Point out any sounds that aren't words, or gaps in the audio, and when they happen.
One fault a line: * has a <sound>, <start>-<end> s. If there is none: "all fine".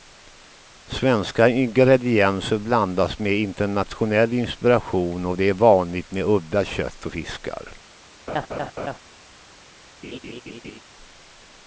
* has a laugh, 8.3-9.0 s
* has a laugh, 10.0-10.8 s